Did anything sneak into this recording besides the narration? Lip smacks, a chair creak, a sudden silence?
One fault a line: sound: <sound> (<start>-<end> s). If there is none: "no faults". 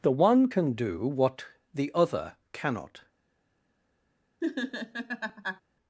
sound: laugh (4.4-5.6 s)